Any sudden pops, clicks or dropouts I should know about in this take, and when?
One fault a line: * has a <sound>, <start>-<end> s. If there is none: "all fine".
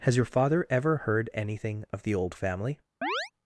* has a chirp, 3.0-3.3 s